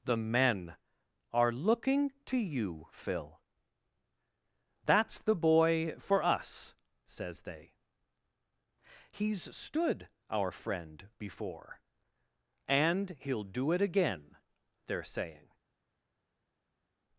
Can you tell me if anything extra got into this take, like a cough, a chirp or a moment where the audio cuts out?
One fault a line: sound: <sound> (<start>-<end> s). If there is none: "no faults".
no faults